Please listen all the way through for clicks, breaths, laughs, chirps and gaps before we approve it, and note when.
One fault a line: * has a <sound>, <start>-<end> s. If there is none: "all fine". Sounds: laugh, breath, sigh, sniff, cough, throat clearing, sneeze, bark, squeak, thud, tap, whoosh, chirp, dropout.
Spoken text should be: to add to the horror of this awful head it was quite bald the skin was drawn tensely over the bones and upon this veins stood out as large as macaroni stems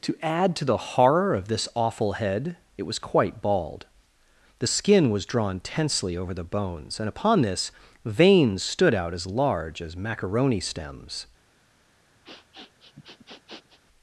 * has a sniff, 12.3-13.8 s